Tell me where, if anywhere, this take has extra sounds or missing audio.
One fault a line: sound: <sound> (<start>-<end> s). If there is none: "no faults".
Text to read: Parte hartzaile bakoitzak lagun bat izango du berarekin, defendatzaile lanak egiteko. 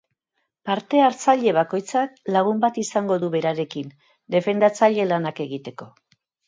no faults